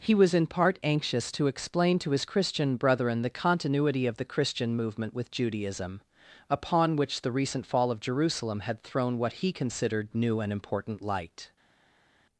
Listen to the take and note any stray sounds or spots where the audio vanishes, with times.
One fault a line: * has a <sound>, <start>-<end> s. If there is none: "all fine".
all fine